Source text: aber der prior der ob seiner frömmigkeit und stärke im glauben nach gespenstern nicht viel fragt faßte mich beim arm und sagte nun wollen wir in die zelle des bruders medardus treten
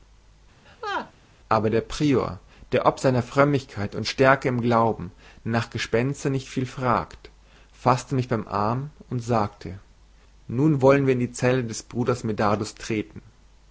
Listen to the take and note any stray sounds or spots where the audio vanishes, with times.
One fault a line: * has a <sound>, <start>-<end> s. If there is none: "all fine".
* has a laugh, 0.7-1.1 s